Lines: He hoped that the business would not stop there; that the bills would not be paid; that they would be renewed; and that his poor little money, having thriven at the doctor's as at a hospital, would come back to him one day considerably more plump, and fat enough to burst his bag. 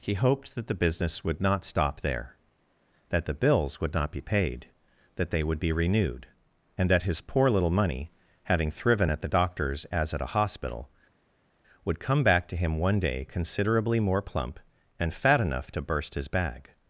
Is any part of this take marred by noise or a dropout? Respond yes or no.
no